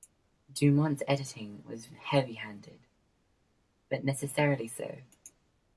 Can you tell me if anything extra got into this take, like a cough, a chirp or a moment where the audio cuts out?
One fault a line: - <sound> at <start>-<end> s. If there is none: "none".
none